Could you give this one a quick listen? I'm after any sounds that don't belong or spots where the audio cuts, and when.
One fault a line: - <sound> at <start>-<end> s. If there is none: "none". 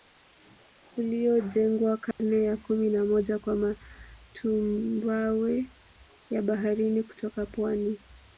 - dropout at 2.1-2.2 s